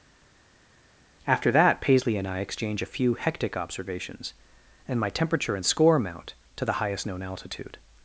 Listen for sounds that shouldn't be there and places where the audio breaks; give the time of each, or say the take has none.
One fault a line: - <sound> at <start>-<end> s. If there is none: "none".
none